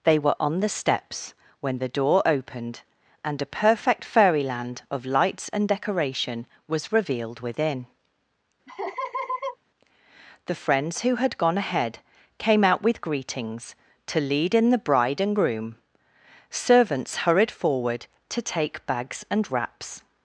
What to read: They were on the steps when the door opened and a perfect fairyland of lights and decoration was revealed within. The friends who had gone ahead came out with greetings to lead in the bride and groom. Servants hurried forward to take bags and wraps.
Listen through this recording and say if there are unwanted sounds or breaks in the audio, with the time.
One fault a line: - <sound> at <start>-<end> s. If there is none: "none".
- laugh at 8.7-9.6 s